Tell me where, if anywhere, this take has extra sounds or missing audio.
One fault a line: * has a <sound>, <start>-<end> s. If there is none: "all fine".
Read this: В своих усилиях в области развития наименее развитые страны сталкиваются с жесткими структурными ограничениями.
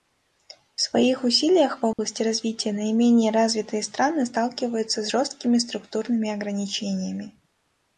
* has a dropout, 1.9-2.0 s